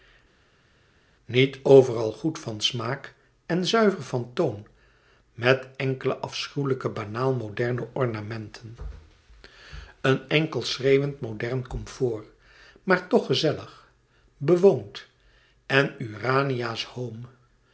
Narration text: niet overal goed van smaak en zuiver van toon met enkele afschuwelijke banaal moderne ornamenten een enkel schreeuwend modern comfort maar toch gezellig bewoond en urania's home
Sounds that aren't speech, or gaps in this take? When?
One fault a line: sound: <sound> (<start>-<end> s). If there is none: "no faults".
no faults